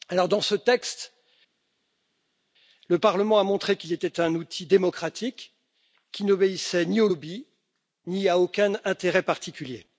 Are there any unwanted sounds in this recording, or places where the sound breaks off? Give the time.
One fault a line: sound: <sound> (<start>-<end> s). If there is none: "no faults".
no faults